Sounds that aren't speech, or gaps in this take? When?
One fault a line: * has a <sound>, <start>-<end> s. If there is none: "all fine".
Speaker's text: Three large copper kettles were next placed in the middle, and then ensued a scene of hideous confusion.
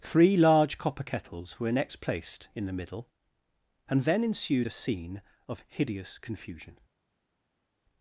all fine